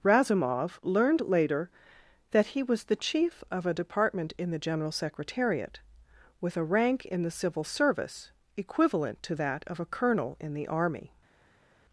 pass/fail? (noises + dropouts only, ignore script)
pass